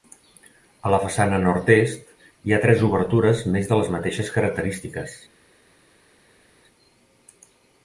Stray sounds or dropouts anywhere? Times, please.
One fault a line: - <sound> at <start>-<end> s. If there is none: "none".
none